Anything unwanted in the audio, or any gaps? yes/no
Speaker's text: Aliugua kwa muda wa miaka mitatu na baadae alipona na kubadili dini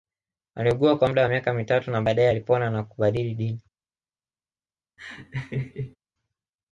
yes